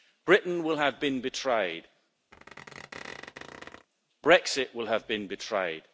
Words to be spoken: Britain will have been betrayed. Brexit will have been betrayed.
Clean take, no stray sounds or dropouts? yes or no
no